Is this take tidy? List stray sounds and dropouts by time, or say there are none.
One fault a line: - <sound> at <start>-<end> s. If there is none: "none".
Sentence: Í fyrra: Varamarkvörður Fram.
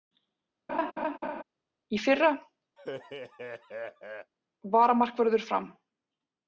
- laugh at 0.7-1.4 s
- laugh at 2.8-4.3 s